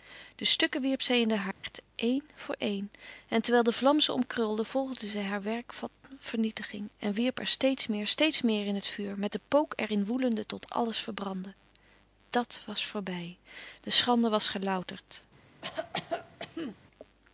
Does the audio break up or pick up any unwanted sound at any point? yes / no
yes